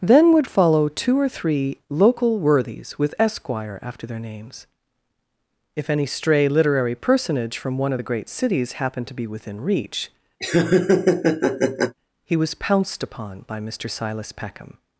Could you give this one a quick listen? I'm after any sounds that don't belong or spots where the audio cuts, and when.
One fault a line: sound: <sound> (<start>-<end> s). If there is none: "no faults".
sound: laugh (10.4-11.9 s)